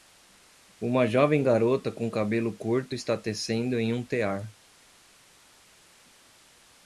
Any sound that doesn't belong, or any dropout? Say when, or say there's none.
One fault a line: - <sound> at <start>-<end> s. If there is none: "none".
none